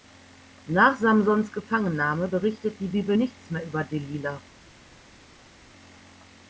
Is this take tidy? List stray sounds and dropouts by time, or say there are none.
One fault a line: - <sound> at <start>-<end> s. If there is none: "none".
none